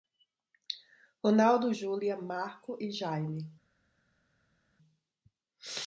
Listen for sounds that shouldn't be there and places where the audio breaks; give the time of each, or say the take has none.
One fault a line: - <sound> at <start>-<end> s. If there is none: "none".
none